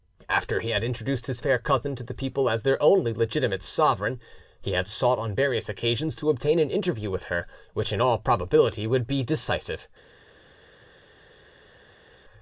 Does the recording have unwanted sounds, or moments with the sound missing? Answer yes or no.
no